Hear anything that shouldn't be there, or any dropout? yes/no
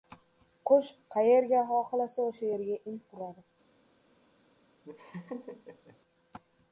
yes